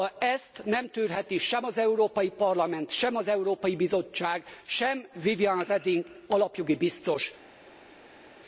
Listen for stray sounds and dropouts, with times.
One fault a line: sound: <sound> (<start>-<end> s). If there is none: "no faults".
no faults